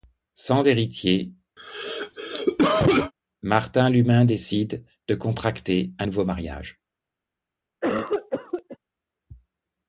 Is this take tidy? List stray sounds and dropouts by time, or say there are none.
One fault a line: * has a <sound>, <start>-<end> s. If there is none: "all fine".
* has a cough, 1.6-3.1 s
* has a cough, 7.8-8.8 s